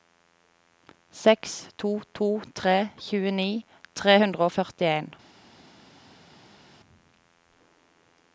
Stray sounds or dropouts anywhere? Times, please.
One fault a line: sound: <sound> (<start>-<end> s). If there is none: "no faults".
no faults